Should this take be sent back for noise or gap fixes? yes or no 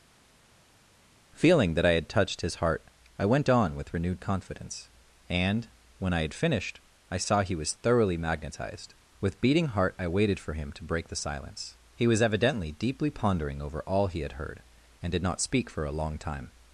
no